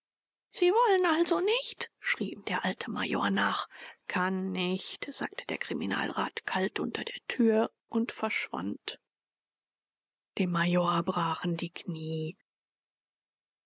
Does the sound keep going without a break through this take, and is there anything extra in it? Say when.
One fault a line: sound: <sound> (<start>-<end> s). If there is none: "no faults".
no faults